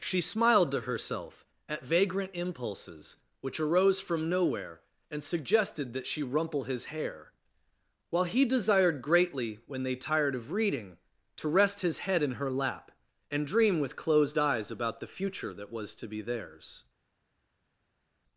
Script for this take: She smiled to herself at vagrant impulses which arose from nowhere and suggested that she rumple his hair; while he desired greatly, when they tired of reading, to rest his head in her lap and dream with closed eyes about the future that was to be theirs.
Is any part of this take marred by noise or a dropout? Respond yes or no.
no